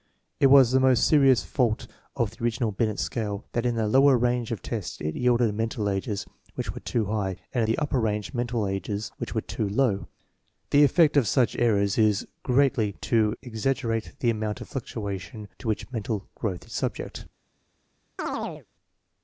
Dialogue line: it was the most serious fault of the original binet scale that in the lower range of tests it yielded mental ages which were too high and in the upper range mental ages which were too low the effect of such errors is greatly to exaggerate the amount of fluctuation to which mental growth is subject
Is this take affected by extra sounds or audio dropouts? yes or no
yes